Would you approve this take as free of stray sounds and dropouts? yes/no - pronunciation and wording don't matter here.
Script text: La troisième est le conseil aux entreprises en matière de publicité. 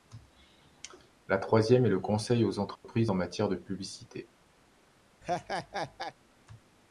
no